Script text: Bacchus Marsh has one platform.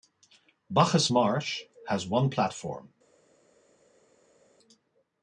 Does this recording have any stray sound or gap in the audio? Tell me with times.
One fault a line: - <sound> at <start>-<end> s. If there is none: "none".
none